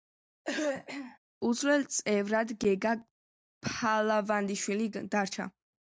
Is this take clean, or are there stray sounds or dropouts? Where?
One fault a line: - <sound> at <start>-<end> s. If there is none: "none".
- throat clearing at 0.4-1.2 s